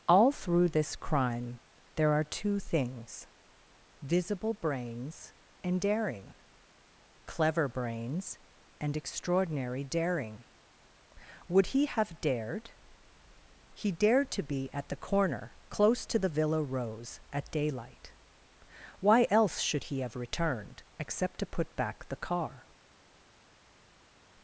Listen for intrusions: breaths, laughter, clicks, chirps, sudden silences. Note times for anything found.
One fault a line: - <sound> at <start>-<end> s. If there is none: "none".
none